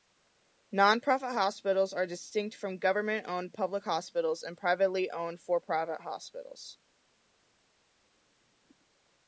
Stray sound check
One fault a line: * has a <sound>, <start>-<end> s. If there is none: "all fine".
all fine